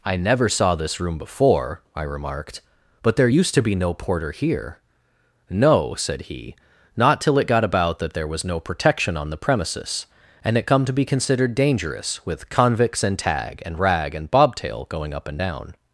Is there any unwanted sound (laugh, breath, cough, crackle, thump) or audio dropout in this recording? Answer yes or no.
no